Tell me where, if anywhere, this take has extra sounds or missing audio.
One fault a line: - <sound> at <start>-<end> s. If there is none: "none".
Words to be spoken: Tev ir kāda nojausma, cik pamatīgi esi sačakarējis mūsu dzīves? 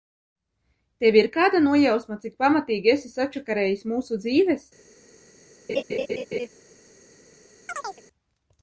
- laugh at 5.7-6.5 s
- chirp at 7.7-8.0 s